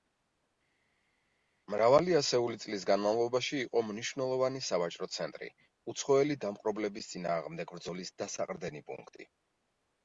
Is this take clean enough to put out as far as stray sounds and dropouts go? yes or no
yes